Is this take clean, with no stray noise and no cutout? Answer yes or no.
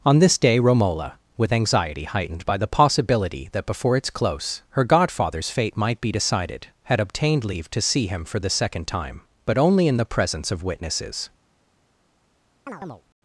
no